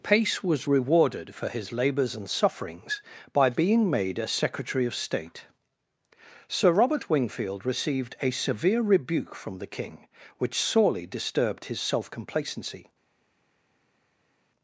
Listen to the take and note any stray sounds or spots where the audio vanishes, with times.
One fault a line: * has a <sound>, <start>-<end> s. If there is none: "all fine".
all fine